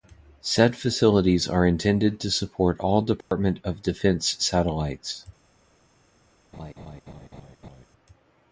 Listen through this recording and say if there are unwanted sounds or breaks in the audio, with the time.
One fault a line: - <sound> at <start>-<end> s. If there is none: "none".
- dropout at 3.2-3.3 s
- laugh at 6.5-7.9 s